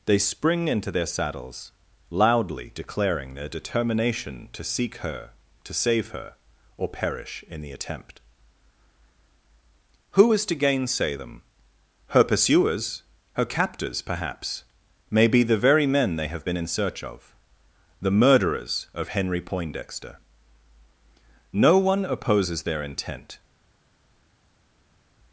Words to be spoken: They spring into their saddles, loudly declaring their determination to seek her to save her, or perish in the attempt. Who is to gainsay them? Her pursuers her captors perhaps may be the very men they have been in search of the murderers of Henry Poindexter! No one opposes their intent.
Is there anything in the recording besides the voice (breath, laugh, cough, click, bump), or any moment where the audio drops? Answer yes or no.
no